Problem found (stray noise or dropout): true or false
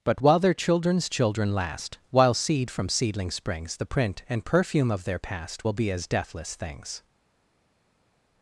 false